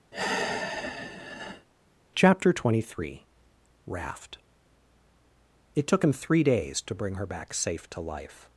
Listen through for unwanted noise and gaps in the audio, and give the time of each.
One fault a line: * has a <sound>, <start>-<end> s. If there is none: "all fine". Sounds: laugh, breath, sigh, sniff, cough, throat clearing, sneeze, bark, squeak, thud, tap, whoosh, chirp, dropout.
* has a sigh, 0.1-1.7 s